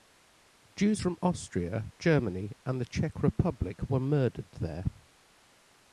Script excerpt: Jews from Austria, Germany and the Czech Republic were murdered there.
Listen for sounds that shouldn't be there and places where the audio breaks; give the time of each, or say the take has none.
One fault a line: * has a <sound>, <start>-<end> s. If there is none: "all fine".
all fine